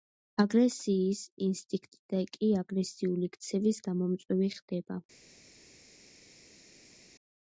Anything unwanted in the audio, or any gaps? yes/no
no